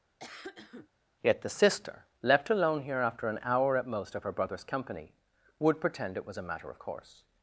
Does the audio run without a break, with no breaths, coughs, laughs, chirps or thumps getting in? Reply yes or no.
no